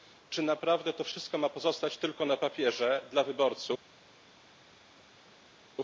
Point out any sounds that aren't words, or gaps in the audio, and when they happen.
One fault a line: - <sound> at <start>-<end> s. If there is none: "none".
none